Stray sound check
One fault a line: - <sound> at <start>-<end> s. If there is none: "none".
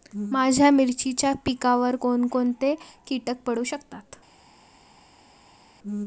none